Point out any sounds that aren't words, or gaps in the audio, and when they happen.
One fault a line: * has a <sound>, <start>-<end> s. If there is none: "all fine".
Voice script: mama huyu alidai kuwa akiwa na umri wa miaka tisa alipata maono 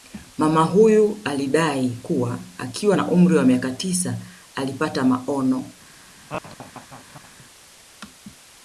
* has a laugh, 6.3-7.5 s